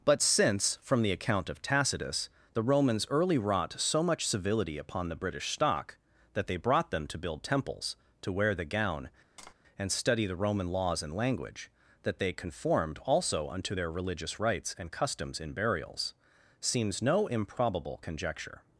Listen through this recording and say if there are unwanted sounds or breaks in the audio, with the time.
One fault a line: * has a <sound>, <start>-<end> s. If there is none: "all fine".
* has a tap, 9.4-9.5 s